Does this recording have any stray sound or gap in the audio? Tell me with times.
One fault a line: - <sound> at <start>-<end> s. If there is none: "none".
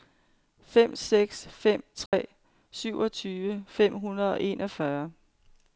- dropout at 2.1-2.1 s